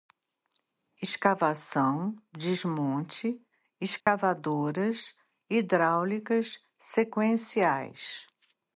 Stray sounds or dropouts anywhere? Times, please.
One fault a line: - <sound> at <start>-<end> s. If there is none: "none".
- dropout at 4.0-4.1 s